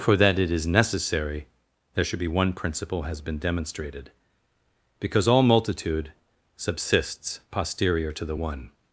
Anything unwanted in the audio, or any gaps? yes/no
no